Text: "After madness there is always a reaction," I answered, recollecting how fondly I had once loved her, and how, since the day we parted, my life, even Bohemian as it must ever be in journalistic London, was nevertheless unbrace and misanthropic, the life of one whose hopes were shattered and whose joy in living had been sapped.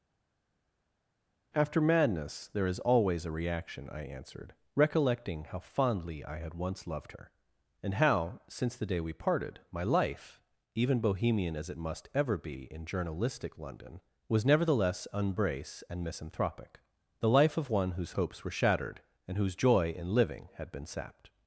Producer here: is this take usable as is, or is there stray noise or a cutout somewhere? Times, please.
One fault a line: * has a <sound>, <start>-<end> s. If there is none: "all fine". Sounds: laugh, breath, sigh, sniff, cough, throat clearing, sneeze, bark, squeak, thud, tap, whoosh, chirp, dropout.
all fine